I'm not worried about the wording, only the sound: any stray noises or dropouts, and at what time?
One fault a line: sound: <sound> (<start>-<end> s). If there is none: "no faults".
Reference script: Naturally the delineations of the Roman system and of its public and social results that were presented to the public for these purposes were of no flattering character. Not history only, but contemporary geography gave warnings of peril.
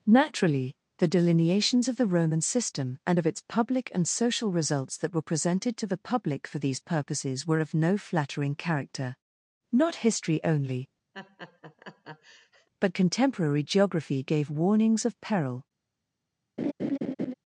sound: laugh (11.1-12.7 s)
sound: laugh (16.6-17.3 s)